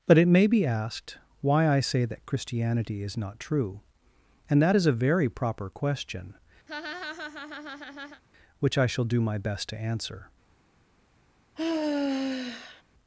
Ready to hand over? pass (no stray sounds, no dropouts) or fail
fail